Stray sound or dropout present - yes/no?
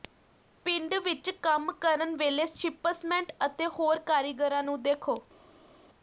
no